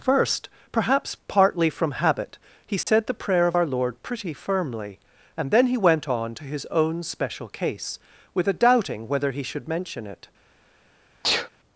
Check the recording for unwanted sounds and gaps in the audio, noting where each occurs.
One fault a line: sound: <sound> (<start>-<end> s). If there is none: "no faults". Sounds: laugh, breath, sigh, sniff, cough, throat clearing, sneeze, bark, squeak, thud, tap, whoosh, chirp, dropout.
sound: dropout (2.8-2.9 s)
sound: sneeze (11.2-11.5 s)